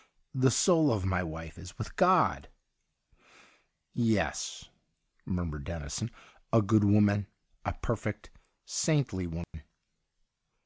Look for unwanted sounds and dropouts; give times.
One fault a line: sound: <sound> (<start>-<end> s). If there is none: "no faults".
sound: dropout (9.4-9.5 s)